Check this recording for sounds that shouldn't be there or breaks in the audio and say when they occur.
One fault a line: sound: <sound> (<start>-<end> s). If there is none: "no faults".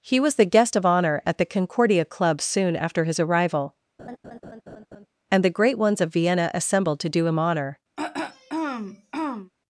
sound: laugh (4.0-5.1 s)
sound: throat clearing (8.0-9.5 s)